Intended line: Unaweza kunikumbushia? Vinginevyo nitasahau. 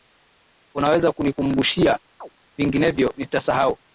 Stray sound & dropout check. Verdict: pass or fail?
fail